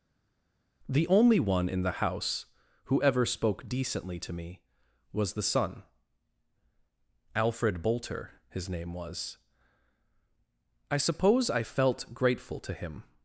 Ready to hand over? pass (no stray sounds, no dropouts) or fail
pass